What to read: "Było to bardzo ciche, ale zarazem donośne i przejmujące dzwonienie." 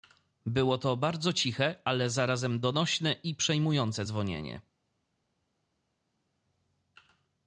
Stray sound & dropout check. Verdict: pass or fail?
pass